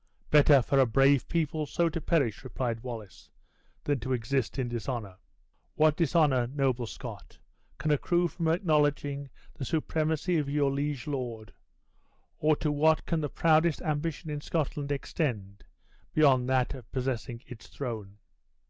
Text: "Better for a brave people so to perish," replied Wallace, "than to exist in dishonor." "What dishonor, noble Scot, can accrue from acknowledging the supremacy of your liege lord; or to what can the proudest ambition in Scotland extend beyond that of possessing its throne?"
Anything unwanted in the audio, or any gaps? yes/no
no